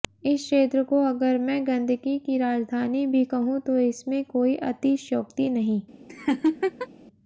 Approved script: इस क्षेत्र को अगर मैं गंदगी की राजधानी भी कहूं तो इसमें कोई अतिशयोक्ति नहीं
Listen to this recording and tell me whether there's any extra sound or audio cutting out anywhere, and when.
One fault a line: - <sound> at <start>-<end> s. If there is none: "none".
- laugh at 6.1-6.9 s